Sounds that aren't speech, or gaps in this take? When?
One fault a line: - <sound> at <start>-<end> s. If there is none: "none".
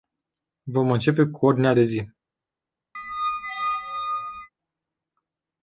- squeak at 2.9-4.5 s